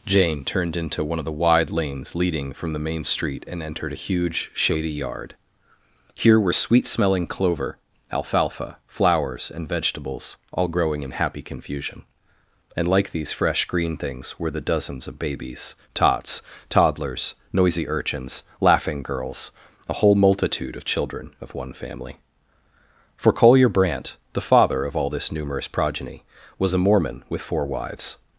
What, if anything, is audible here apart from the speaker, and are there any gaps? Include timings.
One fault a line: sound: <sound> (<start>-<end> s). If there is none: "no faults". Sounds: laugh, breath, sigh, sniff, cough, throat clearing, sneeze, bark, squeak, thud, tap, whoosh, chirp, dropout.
no faults